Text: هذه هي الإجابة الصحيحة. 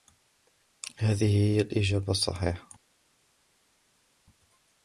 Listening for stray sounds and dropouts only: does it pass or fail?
pass